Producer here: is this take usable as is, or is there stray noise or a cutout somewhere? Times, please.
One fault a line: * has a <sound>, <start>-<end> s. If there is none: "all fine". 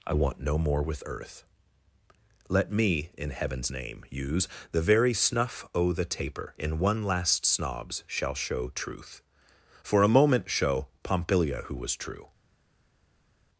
all fine